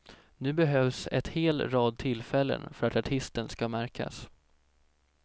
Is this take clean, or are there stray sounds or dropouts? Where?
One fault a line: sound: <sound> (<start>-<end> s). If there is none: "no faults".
no faults